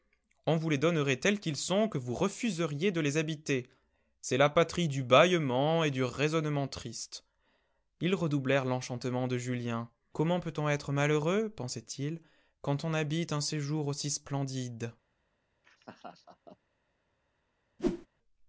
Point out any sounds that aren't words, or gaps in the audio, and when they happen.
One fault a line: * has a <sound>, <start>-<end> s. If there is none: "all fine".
* has a laugh, 15.6-16.6 s
* has a whoosh, 17.8-18.1 s